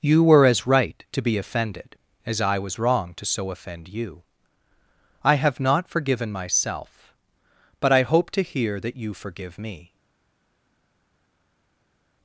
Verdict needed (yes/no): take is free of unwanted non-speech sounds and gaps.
yes